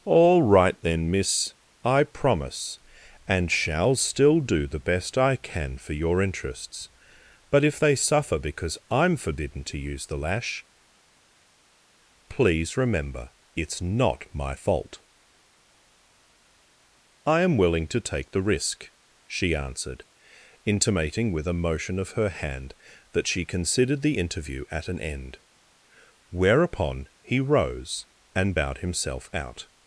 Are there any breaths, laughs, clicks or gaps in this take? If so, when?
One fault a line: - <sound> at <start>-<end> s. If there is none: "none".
none